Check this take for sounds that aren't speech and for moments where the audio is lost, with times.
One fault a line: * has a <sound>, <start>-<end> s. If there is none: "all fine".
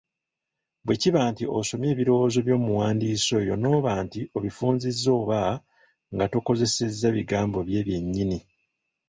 all fine